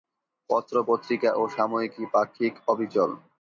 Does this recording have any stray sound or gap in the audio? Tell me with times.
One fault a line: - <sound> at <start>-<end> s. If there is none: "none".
none